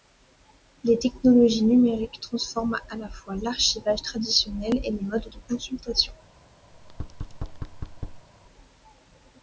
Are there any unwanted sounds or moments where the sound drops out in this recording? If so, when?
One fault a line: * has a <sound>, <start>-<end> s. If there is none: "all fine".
* has a thud, 6.7-8.3 s